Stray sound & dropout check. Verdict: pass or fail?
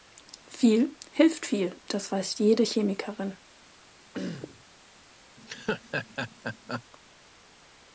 fail